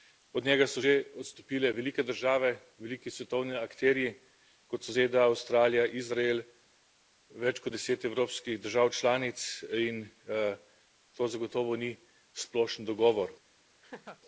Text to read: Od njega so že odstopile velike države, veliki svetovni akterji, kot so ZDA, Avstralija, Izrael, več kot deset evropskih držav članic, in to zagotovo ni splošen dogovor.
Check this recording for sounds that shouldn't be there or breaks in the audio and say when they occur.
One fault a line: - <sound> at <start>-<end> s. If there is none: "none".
- laugh at 13.8-14.2 s